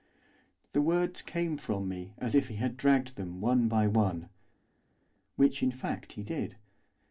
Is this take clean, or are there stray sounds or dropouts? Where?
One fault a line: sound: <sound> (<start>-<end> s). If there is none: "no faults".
no faults